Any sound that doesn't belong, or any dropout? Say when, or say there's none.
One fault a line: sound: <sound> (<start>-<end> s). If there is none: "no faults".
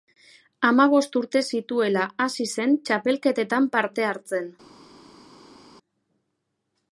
no faults